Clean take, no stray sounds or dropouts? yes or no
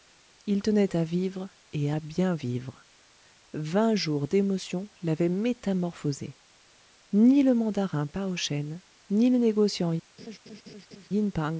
no